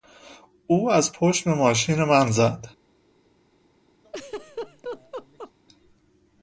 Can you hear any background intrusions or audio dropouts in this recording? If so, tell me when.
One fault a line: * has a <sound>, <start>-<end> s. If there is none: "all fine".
* has a laugh, 4.0-5.5 s